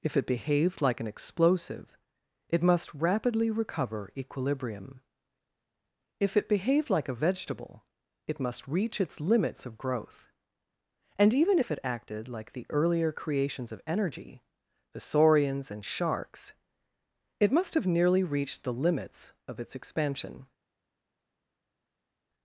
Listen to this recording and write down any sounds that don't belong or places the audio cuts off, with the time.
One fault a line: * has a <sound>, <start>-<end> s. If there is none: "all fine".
all fine